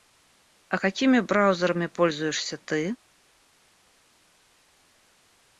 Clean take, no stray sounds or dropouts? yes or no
yes